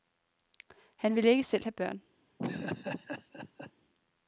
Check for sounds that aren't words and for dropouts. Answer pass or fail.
fail